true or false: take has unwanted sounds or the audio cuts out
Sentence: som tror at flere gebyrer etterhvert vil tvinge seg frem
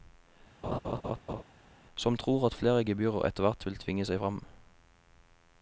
true